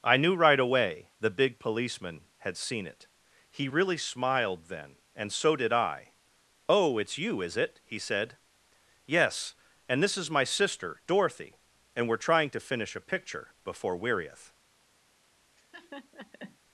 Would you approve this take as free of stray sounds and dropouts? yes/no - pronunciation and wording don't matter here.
no